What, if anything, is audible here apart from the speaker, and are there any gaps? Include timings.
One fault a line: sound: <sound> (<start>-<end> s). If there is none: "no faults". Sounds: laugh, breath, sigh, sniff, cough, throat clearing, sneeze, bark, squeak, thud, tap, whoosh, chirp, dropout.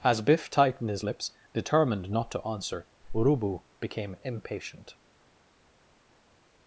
no faults